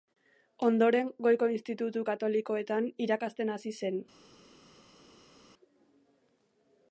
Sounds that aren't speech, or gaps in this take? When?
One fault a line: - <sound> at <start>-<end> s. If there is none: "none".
none